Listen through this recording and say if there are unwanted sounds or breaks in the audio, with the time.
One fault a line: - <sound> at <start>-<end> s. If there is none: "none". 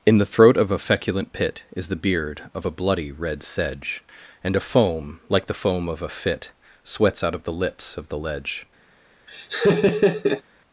- laugh at 9.3-10.4 s